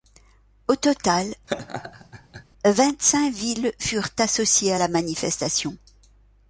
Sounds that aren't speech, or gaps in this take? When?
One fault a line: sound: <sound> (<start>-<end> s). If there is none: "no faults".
sound: laugh (1.5-2.4 s)